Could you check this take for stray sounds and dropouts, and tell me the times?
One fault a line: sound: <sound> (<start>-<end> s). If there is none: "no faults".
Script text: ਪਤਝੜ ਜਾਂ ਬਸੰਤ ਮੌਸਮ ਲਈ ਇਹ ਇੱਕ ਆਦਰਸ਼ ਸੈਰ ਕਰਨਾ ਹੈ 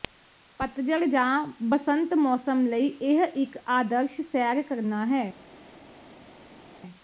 no faults